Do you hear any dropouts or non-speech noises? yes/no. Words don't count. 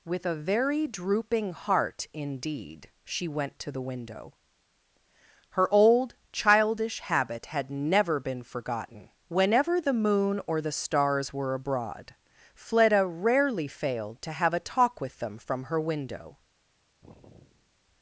yes